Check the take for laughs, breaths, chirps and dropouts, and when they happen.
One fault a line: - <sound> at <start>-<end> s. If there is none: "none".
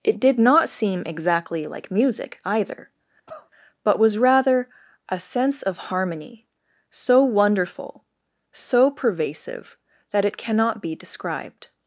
- cough at 3.3-3.5 s